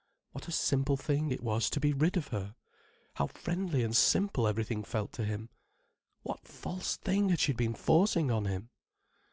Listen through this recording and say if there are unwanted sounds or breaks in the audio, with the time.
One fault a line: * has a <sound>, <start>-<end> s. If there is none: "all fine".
all fine